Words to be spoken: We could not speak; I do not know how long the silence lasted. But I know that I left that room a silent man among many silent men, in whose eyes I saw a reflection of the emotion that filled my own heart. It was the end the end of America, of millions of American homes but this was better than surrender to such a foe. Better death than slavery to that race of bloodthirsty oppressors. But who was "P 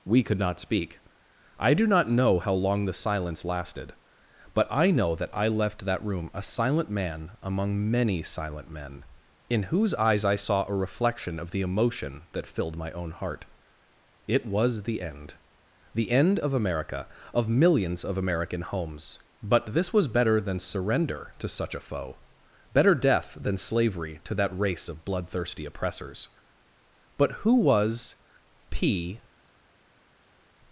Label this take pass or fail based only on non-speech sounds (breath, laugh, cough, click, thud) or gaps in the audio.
pass